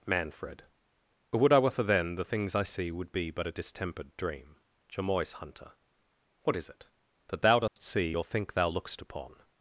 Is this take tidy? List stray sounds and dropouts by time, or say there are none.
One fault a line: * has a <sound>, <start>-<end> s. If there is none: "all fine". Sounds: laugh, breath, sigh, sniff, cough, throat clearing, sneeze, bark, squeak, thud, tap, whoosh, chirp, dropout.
* has a dropout, 7.7-7.8 s